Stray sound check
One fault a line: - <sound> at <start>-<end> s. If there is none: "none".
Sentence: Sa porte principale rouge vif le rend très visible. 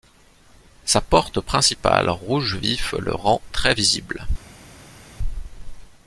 none